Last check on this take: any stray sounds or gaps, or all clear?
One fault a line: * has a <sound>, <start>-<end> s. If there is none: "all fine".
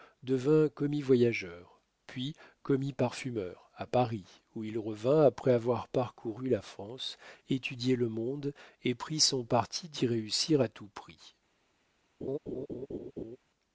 * has a laugh, 12.2-13.4 s